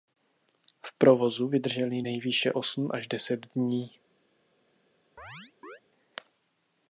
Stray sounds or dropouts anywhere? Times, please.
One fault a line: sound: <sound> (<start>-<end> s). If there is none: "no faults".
sound: chirp (5.2-5.8 s)